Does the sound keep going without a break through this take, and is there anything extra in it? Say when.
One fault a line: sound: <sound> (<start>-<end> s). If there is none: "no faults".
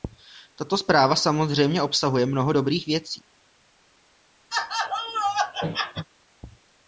sound: laugh (4.5-6.1 s)